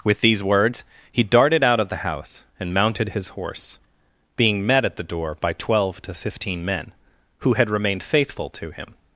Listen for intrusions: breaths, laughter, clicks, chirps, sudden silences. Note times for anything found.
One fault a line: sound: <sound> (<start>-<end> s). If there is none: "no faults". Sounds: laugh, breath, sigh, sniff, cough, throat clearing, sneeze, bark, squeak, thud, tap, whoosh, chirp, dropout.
no faults